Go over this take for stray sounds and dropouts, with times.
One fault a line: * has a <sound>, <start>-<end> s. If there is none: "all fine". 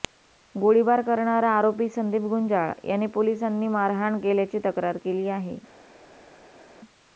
all fine